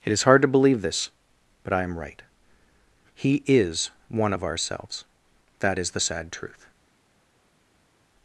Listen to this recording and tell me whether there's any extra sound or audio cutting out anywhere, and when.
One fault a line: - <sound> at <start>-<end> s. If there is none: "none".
none